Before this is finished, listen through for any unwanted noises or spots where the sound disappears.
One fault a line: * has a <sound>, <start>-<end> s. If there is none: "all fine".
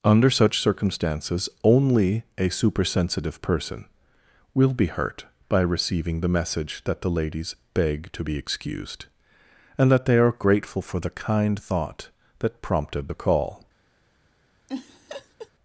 * has a laugh, 14.7-15.5 s